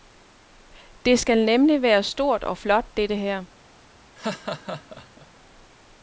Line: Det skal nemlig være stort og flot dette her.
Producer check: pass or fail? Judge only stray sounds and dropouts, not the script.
fail